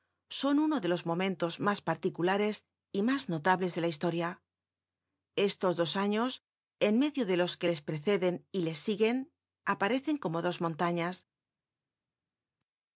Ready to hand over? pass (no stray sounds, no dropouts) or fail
pass